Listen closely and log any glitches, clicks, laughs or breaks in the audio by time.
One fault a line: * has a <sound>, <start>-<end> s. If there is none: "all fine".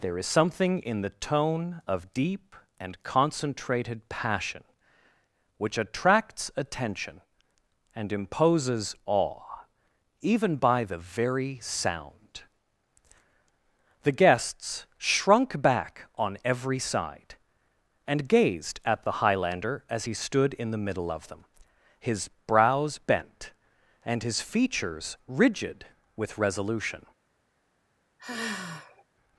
* has a sigh, 28.2-29.0 s